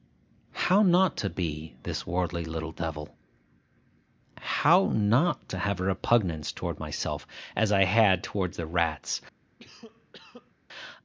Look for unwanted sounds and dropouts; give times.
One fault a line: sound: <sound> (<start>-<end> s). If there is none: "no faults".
sound: cough (9.6-10.5 s)